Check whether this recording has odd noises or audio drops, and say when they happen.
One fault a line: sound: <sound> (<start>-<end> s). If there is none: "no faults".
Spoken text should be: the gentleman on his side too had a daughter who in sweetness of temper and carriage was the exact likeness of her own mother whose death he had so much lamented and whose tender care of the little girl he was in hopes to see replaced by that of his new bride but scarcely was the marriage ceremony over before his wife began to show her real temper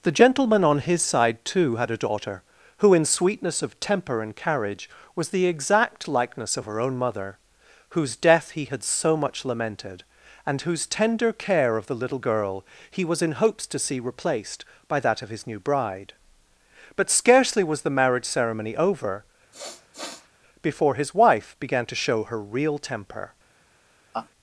sound: sniff (19.5-20.3 s)
sound: laugh (24.1-24.3 s)